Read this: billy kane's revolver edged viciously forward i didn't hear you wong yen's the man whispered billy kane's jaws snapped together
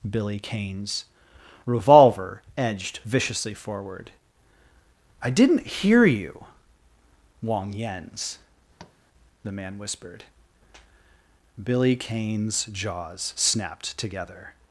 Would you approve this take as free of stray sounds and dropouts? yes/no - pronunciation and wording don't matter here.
no